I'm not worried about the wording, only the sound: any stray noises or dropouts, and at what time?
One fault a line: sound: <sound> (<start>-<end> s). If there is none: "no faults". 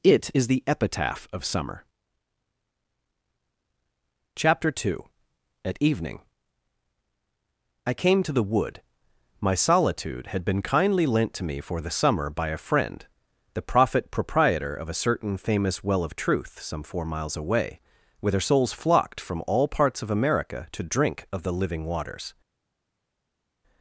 no faults